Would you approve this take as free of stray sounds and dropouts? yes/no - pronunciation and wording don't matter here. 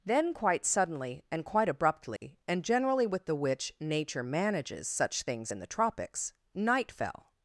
no